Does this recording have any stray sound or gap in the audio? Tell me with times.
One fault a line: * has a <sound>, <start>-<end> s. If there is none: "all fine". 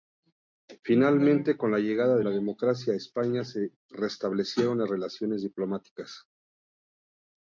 all fine